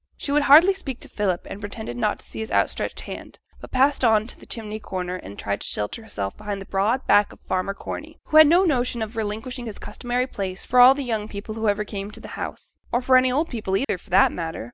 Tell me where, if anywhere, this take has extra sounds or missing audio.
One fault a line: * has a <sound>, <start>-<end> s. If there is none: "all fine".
* has a dropout, 13.8-13.9 s